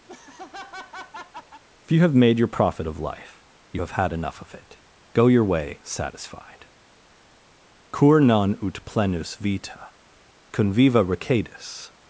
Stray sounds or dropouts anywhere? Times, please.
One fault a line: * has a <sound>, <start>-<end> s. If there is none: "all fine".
* has a laugh, 0.1-1.6 s